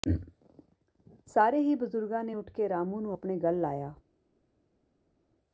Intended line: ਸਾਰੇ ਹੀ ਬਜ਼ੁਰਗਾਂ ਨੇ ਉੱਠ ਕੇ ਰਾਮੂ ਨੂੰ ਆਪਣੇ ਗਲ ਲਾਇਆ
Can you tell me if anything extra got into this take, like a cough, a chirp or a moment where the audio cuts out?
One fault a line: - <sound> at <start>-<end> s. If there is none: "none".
none